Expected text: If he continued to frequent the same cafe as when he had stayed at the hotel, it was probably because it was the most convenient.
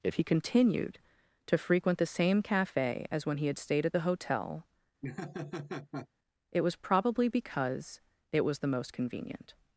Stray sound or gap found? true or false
true